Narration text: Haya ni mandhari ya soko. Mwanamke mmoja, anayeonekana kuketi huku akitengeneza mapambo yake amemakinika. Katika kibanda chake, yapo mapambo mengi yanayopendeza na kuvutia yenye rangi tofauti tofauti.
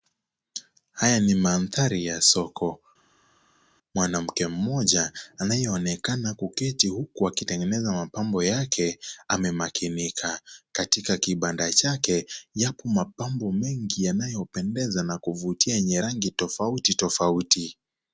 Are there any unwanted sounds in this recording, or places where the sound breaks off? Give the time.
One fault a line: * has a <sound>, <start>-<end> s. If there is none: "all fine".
all fine